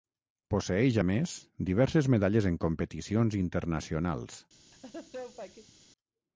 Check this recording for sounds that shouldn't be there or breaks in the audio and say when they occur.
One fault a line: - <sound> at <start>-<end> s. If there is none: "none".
- laugh at 4.7-5.7 s